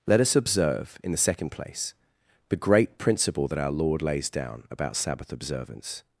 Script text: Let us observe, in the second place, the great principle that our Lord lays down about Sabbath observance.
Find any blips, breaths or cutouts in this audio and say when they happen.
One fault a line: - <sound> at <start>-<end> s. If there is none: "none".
none